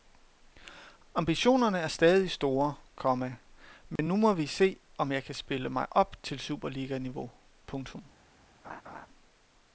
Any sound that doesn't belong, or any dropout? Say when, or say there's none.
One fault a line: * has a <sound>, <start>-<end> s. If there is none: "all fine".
* has a dropout, 4.0-4.0 s
* has a laugh, 8.6-9.1 s